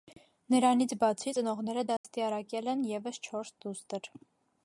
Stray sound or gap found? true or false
true